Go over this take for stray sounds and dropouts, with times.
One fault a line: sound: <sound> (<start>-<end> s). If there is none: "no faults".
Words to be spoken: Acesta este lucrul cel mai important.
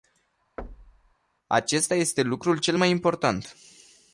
sound: thud (0.6-1.1 s)